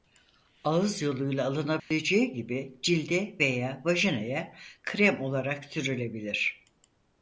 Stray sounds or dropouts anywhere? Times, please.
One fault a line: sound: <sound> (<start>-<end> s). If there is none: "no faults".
sound: dropout (1.8-1.9 s)